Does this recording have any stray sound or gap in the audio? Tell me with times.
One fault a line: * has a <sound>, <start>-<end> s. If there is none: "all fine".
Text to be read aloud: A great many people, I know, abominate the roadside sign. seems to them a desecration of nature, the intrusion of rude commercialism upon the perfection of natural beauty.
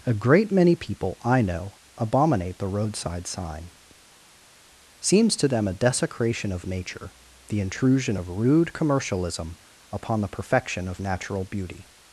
all fine